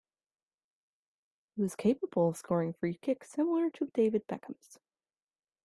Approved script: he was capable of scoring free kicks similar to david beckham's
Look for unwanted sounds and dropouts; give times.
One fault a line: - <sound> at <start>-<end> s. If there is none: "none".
none